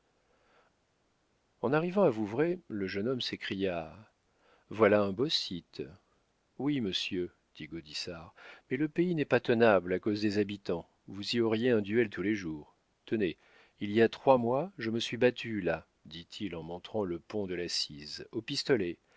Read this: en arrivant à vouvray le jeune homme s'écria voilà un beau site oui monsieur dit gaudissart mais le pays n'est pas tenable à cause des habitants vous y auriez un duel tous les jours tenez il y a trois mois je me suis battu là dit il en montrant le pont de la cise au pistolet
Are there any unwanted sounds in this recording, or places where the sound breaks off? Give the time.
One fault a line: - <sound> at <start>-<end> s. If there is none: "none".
none